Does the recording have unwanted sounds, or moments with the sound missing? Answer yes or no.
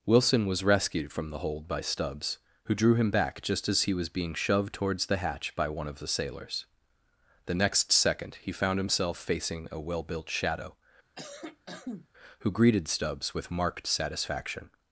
yes